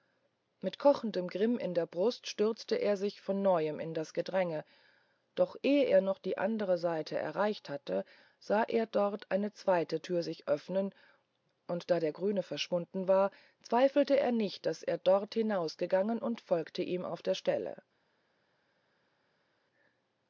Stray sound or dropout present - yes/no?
no